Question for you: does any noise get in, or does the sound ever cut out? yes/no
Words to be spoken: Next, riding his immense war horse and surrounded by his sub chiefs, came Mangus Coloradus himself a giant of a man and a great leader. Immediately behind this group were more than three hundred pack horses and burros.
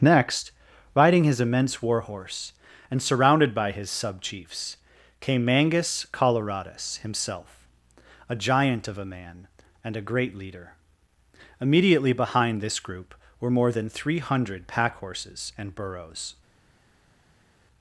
no